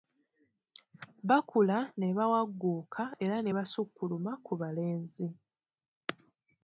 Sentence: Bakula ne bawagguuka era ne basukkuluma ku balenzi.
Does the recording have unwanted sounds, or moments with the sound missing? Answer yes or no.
no